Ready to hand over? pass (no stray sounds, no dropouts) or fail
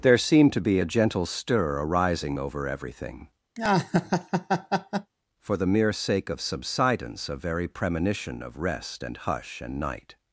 fail